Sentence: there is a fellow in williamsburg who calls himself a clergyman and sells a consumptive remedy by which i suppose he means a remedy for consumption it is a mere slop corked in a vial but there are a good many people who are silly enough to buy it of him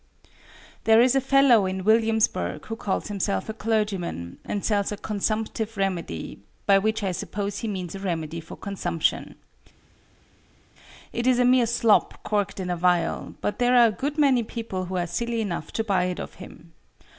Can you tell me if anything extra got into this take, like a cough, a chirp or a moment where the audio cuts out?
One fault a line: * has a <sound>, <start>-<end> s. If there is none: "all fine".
all fine